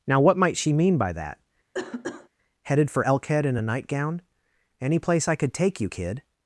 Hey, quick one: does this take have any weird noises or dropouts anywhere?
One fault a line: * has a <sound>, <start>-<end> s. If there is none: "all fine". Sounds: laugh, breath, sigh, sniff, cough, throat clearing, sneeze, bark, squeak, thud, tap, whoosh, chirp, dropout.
* has a cough, 1.7-2.3 s